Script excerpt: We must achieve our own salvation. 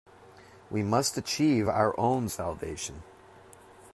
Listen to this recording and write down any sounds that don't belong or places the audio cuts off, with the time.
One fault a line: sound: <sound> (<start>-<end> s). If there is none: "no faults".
no faults